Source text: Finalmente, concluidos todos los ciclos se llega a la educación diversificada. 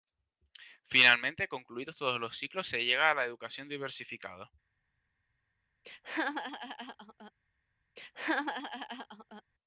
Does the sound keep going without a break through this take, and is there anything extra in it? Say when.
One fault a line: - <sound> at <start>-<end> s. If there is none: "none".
- laugh at 5.8-7.3 s
- laugh at 8.0-9.4 s